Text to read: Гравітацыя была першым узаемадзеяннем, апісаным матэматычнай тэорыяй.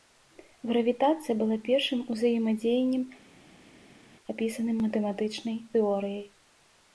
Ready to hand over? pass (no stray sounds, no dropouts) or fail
pass